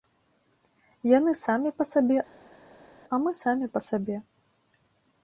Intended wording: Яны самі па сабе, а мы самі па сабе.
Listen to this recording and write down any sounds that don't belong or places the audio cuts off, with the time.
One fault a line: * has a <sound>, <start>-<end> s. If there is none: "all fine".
all fine